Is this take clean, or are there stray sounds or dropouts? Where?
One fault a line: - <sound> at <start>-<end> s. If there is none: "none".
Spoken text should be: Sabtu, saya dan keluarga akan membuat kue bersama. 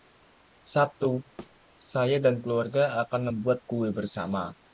- thud at 1.4-1.6 s